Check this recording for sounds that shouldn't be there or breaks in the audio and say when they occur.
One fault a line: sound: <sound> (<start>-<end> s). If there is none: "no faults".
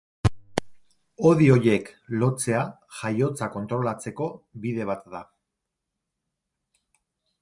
no faults